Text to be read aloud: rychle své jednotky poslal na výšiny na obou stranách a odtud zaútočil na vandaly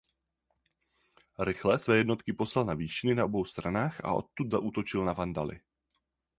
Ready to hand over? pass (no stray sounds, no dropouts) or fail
pass